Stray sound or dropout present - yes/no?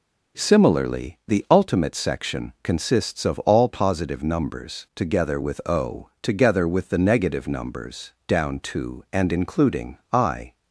no